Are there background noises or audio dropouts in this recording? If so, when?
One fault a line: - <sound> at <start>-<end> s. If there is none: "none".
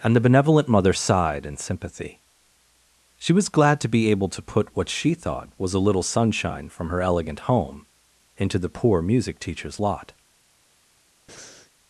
- breath at 11.3-11.7 s